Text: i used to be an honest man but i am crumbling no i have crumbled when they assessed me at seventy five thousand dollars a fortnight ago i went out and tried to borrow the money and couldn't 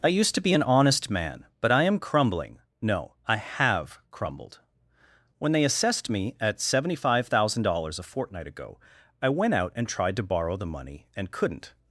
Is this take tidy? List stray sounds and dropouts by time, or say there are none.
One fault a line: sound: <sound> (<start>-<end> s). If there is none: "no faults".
no faults